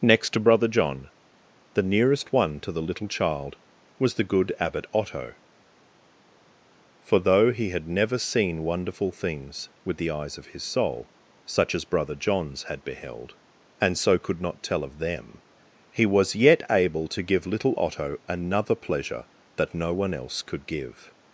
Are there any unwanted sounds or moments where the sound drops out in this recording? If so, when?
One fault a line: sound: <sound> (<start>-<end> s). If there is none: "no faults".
no faults